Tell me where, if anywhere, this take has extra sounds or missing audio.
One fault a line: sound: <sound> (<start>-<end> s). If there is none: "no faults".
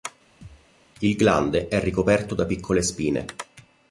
sound: thud (0.4-0.7 s)